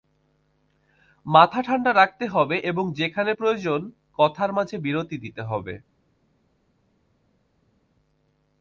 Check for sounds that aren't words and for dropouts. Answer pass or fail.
pass